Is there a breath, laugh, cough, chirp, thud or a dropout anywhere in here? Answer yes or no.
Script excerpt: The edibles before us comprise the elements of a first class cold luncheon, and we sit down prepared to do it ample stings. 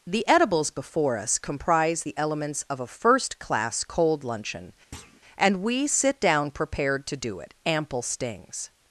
yes